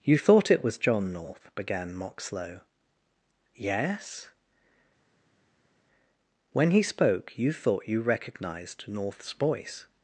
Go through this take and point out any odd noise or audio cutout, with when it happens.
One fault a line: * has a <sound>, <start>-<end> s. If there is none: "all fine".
all fine